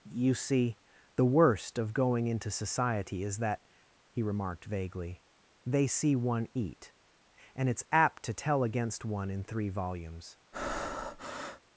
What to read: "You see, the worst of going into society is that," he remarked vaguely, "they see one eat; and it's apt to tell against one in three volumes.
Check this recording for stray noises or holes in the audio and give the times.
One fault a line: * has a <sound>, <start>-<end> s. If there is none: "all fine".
* has a breath, 10.5-11.6 s